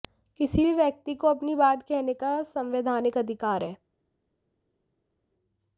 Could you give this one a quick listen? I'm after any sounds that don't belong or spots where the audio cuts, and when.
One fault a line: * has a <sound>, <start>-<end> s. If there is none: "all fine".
all fine